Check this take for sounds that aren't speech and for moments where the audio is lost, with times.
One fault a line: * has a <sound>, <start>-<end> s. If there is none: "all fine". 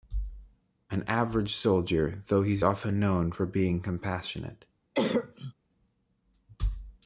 * has a cough, 4.9-5.5 s